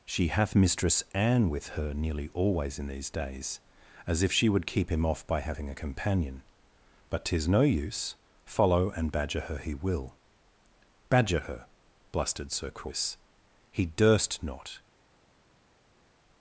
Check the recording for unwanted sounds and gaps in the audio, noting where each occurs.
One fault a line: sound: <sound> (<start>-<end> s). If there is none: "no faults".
no faults